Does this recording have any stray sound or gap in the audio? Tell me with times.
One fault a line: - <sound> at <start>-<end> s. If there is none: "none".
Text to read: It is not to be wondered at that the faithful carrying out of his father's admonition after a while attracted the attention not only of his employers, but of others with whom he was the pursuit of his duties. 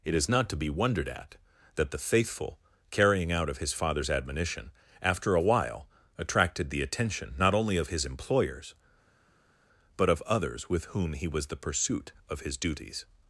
none